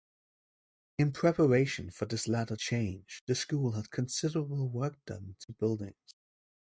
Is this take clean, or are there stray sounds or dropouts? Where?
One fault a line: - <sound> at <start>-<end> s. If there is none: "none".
none